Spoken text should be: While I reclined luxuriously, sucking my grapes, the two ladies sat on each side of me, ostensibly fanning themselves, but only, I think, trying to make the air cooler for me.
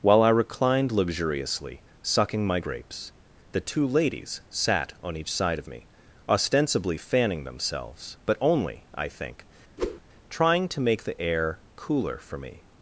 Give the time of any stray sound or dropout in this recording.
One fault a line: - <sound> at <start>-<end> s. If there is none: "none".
- whoosh at 9.8-10.0 s